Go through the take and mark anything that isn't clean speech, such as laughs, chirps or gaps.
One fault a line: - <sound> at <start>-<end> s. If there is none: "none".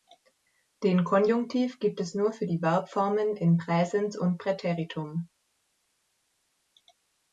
none